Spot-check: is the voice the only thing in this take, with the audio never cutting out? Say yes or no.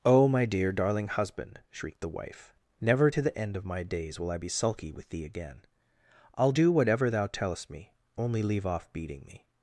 yes